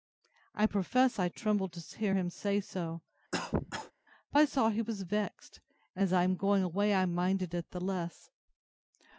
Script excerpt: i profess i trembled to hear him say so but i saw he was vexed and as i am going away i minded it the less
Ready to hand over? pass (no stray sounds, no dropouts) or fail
fail